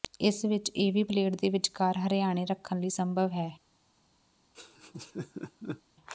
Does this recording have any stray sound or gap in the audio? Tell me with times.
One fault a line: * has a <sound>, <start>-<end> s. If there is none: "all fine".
* has a laugh, 4.5-5.8 s